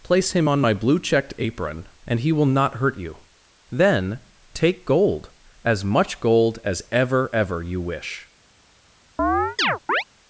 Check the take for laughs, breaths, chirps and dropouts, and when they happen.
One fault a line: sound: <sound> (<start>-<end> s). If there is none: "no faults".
sound: chirp (9.2-10.0 s)